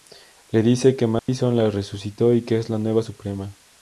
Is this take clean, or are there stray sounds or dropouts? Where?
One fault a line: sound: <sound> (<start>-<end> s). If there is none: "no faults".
sound: dropout (1.2-1.3 s)